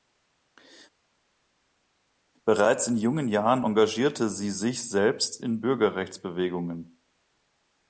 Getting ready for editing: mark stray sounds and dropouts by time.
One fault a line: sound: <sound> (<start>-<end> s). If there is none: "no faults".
no faults